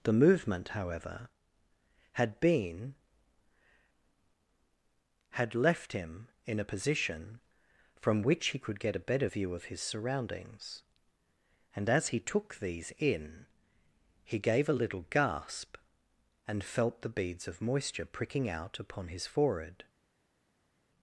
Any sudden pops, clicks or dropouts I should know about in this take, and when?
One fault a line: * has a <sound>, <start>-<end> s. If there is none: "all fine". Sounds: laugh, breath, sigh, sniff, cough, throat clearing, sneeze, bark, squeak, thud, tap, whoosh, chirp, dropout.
all fine